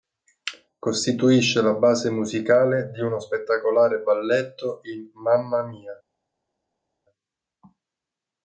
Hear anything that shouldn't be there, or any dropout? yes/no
no